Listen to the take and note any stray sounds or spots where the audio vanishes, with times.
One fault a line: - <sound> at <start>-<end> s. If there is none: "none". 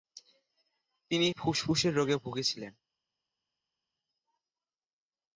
none